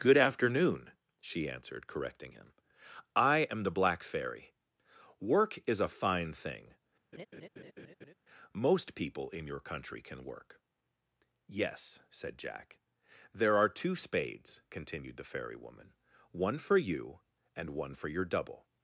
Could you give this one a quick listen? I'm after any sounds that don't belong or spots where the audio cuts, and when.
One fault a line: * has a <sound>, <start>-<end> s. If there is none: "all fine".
* has a laugh, 7.1-8.1 s